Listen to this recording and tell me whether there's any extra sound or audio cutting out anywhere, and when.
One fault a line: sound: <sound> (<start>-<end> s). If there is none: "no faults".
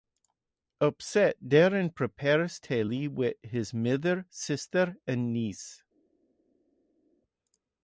no faults